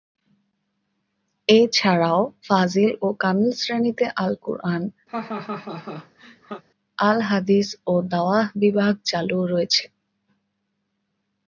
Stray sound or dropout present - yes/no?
yes